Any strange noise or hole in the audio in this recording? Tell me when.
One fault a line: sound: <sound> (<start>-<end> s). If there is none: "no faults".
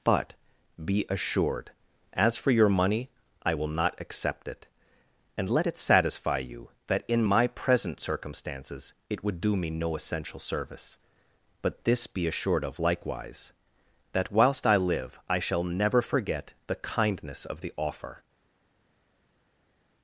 no faults